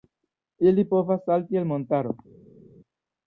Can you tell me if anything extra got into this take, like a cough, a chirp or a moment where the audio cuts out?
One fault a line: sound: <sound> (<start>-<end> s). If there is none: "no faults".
no faults